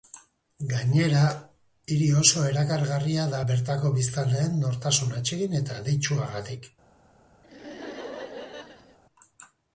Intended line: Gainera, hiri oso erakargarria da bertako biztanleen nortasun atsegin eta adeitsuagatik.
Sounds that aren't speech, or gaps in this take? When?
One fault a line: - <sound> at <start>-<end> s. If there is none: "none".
- laugh at 7.4-9.0 s